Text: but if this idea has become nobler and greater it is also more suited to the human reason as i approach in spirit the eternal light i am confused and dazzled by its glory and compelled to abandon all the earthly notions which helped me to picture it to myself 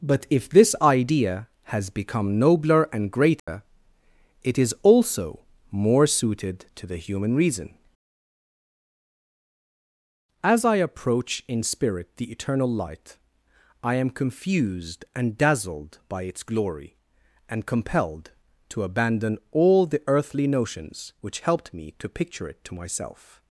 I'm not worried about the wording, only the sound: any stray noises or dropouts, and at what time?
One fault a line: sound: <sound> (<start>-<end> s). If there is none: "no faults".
sound: dropout (3.4-3.5 s)